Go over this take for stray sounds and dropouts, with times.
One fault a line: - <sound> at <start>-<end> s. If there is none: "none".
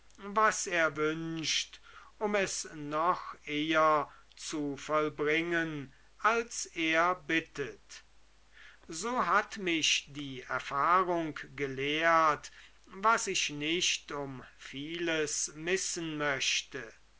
none